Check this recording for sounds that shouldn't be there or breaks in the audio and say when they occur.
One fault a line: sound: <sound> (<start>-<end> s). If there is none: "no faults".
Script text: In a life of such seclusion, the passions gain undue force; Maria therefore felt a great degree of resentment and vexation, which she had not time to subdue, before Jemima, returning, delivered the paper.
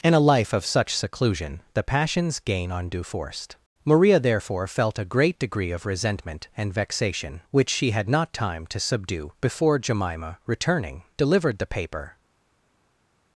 no faults